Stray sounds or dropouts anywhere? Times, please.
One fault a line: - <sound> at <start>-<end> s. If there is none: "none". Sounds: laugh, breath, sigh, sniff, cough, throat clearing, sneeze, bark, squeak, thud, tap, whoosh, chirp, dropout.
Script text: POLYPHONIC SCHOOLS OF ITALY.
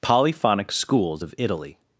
none